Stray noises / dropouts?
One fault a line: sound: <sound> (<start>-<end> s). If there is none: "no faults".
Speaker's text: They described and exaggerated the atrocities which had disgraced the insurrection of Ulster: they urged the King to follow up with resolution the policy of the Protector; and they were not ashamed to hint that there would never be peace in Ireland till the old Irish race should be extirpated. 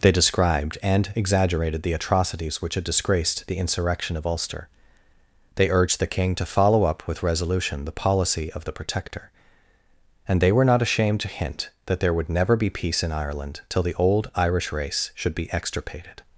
no faults